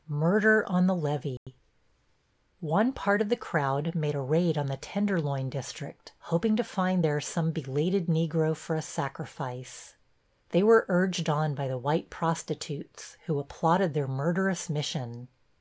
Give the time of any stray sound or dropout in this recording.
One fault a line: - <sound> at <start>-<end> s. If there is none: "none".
- dropout at 1.4-1.5 s